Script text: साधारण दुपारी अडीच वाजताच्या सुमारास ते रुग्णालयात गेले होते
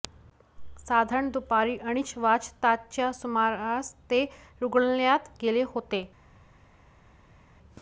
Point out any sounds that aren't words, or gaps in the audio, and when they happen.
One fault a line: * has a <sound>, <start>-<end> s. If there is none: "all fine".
all fine